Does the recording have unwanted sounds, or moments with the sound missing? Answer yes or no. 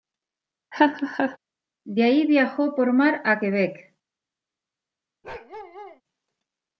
yes